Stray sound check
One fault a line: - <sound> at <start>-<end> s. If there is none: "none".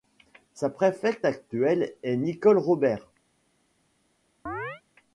- chirp at 4.5-4.8 s